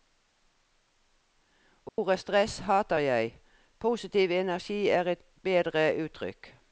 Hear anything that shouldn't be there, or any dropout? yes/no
yes